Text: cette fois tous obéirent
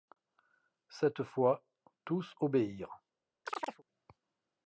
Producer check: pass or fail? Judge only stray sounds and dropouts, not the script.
fail